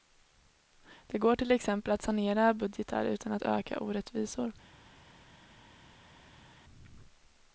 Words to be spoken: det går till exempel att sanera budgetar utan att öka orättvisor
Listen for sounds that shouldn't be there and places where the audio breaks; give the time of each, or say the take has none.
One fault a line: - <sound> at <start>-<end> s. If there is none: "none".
none